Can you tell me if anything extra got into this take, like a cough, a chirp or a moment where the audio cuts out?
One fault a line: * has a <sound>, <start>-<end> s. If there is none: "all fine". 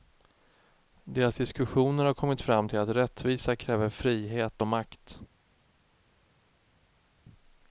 all fine